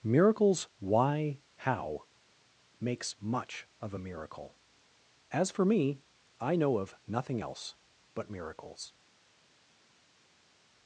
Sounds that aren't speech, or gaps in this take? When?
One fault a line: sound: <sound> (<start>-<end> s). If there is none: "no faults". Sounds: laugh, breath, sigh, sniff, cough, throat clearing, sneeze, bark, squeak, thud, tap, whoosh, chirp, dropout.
no faults